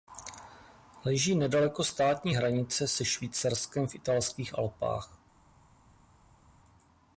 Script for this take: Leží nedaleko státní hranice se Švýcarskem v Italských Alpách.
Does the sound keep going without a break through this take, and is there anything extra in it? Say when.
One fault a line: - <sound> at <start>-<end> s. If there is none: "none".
none